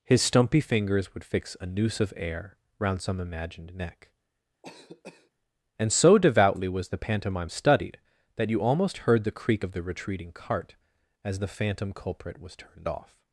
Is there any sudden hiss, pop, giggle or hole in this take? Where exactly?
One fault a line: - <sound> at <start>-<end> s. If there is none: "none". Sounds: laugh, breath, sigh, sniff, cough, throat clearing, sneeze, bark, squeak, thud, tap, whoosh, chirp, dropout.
- cough at 4.6-5.3 s